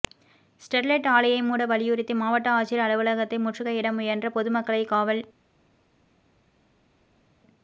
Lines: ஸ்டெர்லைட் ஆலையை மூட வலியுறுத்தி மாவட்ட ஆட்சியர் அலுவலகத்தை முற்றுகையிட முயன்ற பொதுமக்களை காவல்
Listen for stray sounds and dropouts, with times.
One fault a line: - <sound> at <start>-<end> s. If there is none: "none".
none